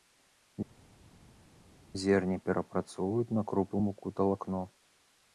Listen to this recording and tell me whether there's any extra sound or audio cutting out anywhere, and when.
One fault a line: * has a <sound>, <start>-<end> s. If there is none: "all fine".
all fine